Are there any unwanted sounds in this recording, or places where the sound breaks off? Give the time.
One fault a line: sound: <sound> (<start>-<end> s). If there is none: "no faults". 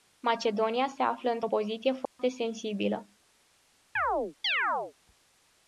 sound: dropout (2.0-2.2 s)
sound: chirp (4.0-4.9 s)